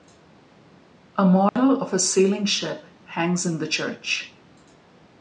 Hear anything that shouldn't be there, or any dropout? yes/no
yes